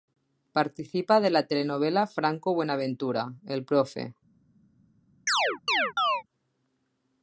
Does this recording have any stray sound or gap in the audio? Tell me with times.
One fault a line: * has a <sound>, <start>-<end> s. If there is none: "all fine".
* has a chirp, 5.3-6.2 s